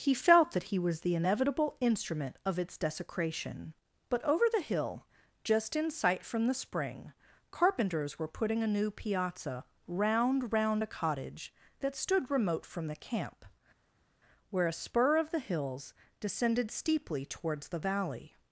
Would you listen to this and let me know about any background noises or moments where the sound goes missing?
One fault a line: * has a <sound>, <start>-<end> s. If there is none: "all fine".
all fine